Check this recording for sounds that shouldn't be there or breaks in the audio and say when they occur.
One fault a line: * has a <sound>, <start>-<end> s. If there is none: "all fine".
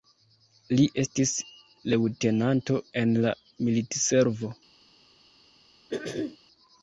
* has a throat clearing, 5.9-6.4 s